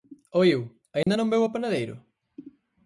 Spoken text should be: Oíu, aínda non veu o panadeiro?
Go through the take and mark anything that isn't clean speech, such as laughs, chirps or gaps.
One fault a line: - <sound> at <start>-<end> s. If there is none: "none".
- dropout at 1.0-1.1 s